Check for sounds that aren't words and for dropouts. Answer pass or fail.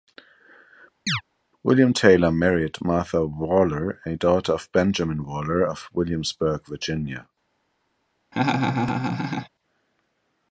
fail